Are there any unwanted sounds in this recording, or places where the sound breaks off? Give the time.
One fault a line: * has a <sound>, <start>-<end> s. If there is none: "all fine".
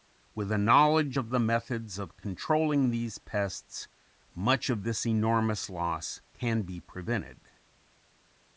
all fine